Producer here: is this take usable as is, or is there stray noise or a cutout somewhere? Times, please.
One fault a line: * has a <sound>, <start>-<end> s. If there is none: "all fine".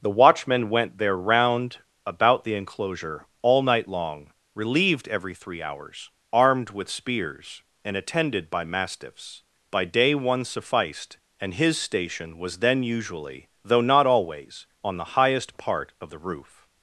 all fine